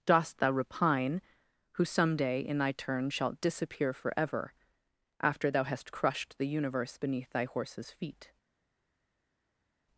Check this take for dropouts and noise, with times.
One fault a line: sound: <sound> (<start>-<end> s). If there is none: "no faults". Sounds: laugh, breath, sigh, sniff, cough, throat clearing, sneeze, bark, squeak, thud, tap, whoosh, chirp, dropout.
no faults